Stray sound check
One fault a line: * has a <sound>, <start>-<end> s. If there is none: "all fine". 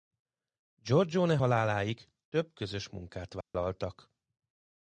* has a dropout, 3.4-3.5 s